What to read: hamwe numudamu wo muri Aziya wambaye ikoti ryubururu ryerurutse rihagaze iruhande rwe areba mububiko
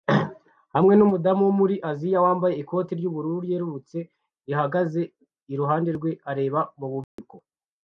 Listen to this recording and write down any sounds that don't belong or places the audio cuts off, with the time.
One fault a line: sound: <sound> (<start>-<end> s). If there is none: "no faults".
sound: dropout (7.0-7.2 s)